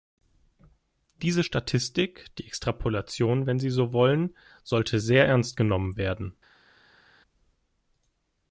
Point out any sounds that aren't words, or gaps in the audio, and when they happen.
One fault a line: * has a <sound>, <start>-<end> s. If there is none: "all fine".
all fine